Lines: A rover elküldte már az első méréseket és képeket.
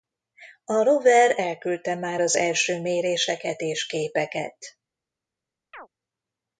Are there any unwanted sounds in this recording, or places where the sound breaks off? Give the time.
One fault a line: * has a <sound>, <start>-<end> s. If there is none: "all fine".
* has a chirp, 5.7-5.9 s